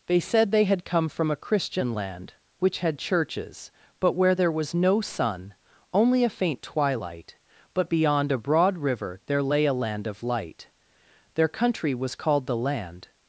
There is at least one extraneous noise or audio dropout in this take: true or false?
false